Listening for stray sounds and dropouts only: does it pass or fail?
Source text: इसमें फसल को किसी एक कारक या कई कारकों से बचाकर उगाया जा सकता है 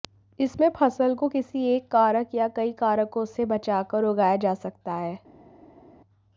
pass